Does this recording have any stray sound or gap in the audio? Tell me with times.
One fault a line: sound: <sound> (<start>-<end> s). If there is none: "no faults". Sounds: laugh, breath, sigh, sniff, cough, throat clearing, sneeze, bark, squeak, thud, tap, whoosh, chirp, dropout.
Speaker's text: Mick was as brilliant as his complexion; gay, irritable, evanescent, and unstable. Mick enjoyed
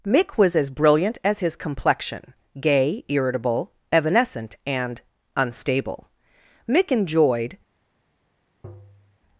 sound: tap (8.6-9.2 s)